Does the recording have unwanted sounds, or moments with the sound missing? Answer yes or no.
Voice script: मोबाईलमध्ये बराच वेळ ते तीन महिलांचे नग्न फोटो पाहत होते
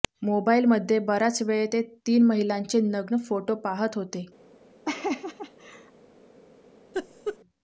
yes